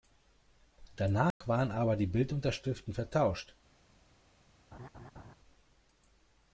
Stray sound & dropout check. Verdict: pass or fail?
fail